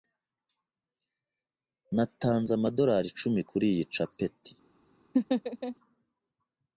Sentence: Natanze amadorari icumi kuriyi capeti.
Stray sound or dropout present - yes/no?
yes